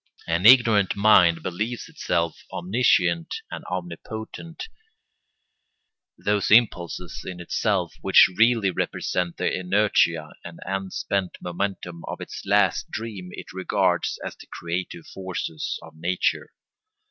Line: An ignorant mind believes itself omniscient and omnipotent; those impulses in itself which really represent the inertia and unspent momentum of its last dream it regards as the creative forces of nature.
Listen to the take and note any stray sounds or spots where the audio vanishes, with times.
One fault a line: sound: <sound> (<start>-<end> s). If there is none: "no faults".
no faults